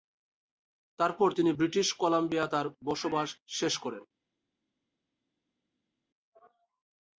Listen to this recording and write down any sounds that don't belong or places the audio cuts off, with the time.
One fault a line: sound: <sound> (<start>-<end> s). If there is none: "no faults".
no faults